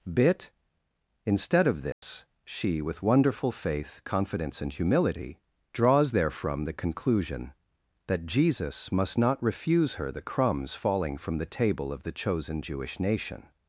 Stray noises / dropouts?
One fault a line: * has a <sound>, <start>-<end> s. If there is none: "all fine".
* has a dropout, 1.9-2.0 s